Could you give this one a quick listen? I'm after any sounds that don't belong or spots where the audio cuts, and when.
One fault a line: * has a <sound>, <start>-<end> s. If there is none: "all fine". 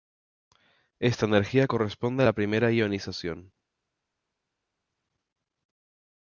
all fine